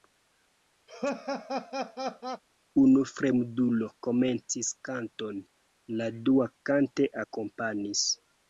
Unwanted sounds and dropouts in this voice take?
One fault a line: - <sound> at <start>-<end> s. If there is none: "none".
- laugh at 0.9-2.4 s